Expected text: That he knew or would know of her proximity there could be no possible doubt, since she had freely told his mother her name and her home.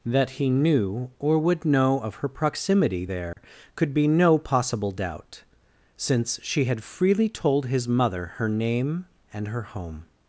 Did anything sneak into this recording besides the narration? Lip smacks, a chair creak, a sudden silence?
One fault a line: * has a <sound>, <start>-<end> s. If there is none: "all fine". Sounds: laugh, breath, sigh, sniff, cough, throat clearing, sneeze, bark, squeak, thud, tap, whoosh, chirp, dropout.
* has a dropout, 3.3-3.4 s